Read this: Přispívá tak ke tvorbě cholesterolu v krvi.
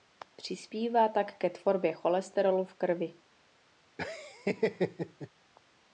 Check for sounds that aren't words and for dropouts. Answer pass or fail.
fail